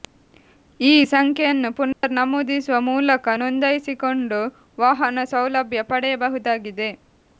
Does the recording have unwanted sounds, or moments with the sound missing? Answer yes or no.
yes